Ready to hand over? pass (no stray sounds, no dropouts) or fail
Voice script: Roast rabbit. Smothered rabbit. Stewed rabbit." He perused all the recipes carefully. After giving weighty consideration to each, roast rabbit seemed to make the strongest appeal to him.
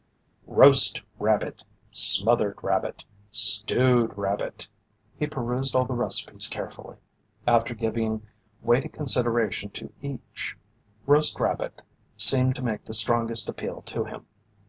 pass